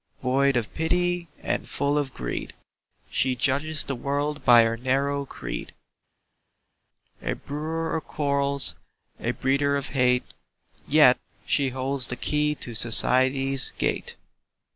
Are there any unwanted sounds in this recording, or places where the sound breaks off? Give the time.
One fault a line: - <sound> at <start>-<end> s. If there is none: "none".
none